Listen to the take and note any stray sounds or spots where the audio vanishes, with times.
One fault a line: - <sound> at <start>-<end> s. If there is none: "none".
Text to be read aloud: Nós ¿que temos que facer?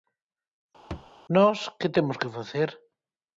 - thud at 0.9-1.1 s